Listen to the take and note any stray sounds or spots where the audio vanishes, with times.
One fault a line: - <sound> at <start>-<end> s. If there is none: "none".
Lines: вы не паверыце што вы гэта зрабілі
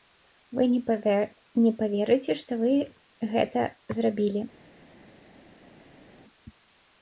none